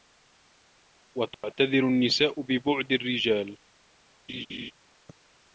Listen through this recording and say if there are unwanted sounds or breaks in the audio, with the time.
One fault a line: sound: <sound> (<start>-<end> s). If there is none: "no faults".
sound: dropout (1.3-1.4 s)
sound: laugh (4.3-4.7 s)